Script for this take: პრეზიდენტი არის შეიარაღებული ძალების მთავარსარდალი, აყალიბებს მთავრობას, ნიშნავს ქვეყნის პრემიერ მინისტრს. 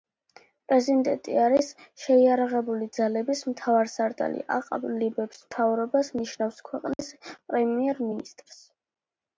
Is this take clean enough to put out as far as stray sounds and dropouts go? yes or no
no